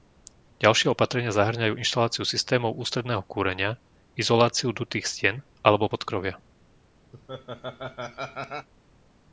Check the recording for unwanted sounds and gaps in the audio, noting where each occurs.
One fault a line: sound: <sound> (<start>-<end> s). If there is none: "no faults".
sound: laugh (7.1-8.7 s)